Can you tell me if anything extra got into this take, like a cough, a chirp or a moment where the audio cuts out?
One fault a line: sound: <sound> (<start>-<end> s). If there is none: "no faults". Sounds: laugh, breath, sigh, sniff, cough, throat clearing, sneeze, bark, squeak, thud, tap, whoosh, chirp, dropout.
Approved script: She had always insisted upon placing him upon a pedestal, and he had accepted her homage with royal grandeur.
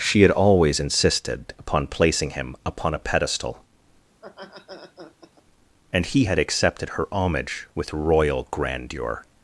sound: laugh (4.1-5.4 s)